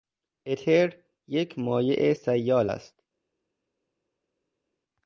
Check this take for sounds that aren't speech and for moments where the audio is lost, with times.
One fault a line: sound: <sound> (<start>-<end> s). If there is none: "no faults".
no faults